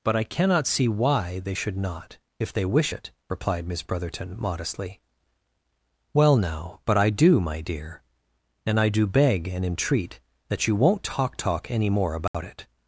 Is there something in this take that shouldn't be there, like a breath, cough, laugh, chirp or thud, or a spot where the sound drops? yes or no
yes